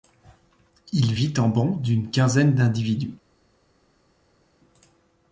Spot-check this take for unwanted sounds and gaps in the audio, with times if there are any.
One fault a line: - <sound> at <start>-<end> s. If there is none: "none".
none